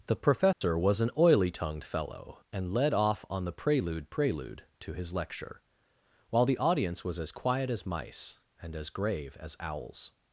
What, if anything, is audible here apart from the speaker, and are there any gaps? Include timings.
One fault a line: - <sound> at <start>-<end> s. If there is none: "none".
- dropout at 0.5-0.6 s